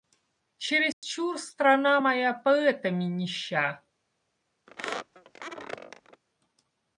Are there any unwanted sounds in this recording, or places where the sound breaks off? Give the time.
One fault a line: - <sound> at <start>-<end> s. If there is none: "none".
- dropout at 0.9-1.0 s
- squeak at 4.7-6.2 s